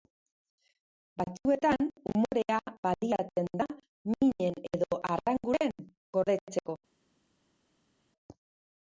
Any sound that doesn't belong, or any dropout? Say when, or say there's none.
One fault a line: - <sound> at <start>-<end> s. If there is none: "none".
none